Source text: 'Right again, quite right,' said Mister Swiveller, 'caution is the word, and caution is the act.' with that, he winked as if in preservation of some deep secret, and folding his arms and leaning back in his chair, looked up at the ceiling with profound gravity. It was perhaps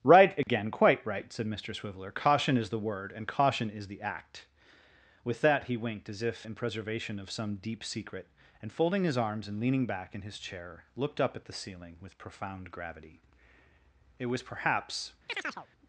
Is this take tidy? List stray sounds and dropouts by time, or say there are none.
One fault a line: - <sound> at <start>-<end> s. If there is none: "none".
- dropout at 0.4-0.5 s
- chirp at 15.3-15.7 s